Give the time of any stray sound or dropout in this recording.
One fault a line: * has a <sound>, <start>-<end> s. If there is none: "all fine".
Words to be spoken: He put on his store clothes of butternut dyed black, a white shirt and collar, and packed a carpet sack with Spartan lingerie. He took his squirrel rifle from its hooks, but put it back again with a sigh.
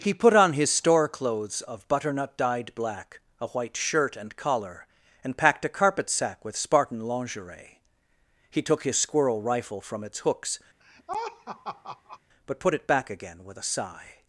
* has a laugh, 10.8-12.2 s